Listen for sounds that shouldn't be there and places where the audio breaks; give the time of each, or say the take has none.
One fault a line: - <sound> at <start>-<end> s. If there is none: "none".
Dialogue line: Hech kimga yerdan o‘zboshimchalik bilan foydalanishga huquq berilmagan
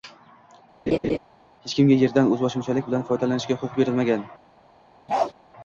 - laugh at 0.9-1.2 s
- bark at 5.1-5.3 s